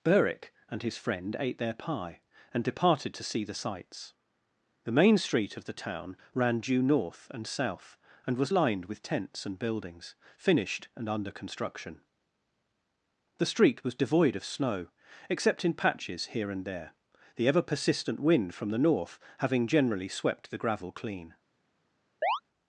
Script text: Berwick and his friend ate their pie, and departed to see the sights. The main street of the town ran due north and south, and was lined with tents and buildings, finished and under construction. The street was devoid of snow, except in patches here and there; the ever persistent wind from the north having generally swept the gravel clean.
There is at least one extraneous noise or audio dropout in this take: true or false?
true